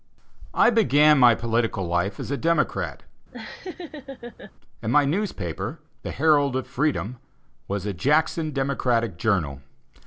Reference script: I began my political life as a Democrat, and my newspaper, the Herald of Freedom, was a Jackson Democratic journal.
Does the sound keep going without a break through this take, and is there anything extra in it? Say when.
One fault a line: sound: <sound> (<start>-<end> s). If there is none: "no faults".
sound: laugh (3.3-4.5 s)